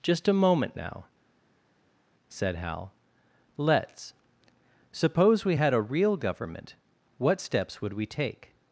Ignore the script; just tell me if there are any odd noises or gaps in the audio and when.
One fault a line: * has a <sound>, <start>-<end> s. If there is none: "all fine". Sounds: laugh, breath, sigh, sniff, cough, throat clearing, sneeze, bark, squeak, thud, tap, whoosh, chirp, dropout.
all fine